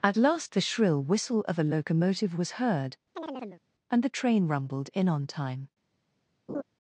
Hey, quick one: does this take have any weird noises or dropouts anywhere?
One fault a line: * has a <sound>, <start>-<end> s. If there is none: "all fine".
* has a chirp, 3.2-3.6 s
* has a laugh, 6.5-6.6 s